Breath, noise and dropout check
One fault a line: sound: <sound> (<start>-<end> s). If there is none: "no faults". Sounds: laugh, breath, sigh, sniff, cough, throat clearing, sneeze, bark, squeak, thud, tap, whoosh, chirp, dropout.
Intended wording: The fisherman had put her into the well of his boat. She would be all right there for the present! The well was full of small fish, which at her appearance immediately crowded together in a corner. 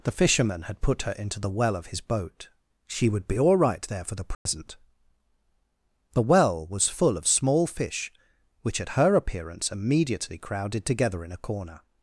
sound: dropout (4.3-4.5 s)